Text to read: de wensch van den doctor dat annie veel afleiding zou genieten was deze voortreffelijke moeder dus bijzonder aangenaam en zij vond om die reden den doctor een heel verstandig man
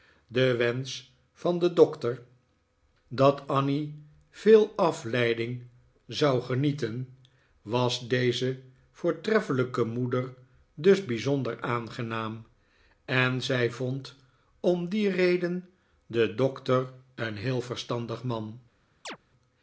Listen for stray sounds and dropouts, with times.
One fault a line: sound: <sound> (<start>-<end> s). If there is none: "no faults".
sound: chirp (19.0-19.2 s)